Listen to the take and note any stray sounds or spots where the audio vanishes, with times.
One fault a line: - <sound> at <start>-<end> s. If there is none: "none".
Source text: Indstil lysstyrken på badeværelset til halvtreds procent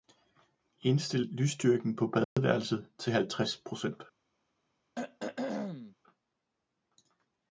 - dropout at 2.2-2.4 s
- throat clearing at 4.9-5.9 s